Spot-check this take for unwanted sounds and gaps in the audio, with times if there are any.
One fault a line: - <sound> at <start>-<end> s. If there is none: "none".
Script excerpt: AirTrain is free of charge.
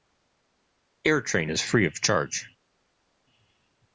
none